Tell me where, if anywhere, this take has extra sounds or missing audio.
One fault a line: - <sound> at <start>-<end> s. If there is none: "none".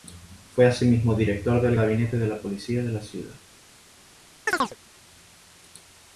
- chirp at 4.5-4.8 s